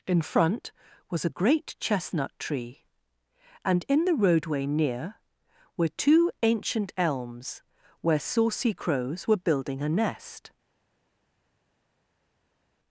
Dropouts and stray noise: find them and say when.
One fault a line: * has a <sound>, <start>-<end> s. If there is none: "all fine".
all fine